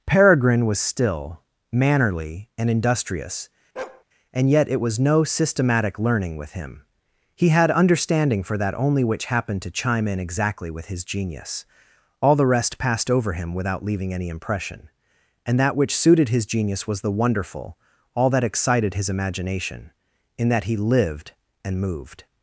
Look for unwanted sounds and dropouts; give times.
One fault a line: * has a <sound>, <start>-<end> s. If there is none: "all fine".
* has a bark, 3.8-4.0 s